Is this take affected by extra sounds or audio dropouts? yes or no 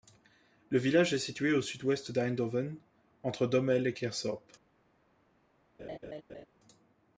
yes